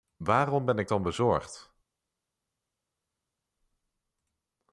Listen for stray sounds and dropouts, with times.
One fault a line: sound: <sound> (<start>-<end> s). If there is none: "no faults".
no faults